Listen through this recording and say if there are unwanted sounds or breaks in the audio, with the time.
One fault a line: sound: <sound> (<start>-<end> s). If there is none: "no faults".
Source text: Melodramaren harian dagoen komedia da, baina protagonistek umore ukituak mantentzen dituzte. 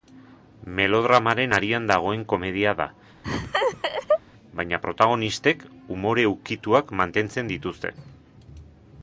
sound: laugh (3.2-4.2 s)